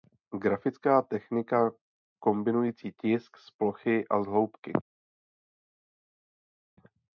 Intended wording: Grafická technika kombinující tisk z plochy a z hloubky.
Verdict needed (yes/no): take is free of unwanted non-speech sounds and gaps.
yes